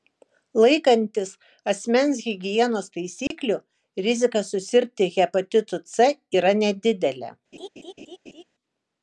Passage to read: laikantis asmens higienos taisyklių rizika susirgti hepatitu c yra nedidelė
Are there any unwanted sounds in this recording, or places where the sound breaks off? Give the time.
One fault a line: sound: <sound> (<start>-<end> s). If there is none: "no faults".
sound: dropout (3.3-3.3 s)
sound: laugh (7.5-8.4 s)